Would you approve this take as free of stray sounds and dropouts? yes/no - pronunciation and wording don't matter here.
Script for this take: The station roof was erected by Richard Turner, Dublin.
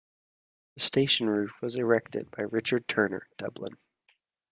yes